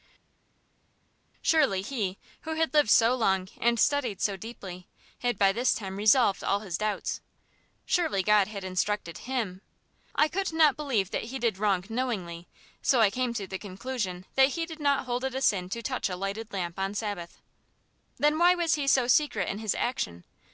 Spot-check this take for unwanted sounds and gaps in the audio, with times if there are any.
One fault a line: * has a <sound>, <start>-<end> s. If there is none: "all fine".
all fine